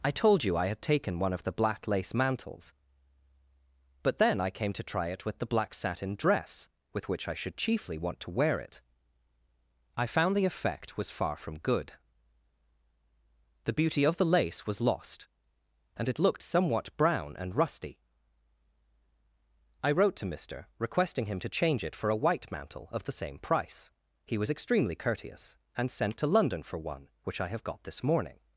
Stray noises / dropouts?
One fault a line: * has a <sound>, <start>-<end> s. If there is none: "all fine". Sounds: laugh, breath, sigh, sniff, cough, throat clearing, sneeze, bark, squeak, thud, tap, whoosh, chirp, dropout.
all fine